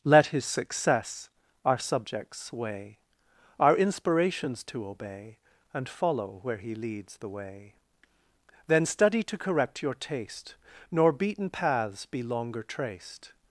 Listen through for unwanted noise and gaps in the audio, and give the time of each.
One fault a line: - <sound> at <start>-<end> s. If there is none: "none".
none